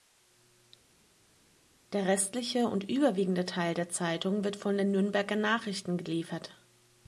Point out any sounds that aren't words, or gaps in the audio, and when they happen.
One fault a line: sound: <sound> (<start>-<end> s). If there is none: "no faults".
no faults